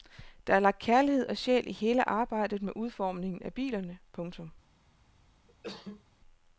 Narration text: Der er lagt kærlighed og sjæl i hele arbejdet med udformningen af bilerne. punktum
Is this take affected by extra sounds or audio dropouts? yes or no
yes